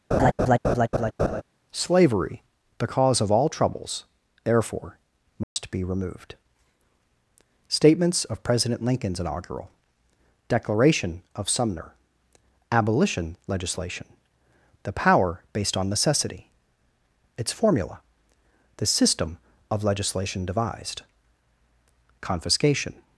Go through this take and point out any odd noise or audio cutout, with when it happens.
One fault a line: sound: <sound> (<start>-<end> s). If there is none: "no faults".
sound: laugh (0.1-1.4 s)
sound: dropout (5.4-5.6 s)